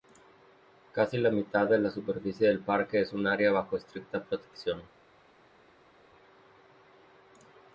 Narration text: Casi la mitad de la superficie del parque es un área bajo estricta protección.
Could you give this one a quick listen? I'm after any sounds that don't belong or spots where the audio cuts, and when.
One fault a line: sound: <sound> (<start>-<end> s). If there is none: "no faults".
no faults